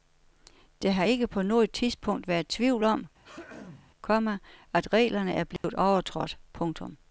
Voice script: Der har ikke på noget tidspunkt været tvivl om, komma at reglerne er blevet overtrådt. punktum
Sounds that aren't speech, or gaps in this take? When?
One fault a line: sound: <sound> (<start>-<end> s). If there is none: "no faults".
sound: throat clearing (3.2-3.9 s)
sound: dropout (5.6-5.6 s)